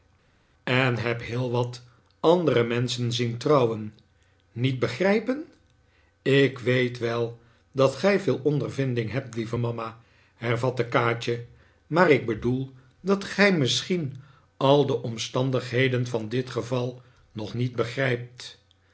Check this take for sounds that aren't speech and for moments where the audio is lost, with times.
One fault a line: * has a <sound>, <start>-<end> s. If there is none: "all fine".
all fine